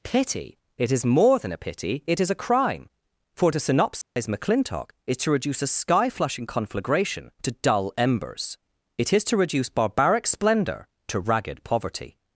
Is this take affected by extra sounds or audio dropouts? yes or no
yes